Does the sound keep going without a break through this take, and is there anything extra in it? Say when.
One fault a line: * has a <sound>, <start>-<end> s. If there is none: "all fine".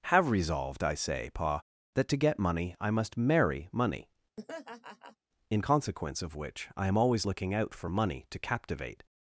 * has a laugh, 4.4-5.2 s